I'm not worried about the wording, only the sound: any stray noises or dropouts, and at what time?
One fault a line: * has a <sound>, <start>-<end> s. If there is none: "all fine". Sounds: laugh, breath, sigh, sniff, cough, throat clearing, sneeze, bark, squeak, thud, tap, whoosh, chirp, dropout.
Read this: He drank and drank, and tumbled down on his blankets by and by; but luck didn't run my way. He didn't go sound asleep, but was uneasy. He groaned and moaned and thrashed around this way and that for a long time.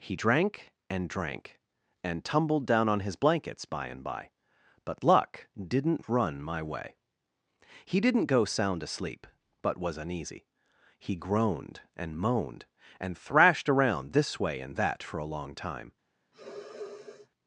* has a sniff, 16.3-17.3 s